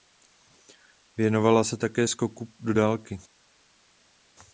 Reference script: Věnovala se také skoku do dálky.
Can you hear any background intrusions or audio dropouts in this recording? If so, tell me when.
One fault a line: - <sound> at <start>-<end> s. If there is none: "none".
none